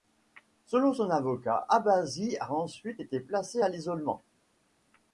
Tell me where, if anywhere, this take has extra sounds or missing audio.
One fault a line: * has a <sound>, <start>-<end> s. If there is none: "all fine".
all fine